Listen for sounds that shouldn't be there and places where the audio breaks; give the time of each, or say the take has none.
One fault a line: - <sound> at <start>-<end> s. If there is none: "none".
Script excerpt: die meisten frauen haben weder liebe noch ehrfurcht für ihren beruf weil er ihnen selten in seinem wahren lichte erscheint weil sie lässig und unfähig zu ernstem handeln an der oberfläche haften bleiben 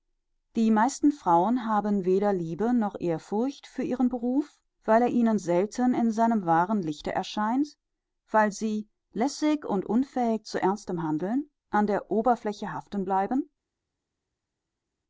none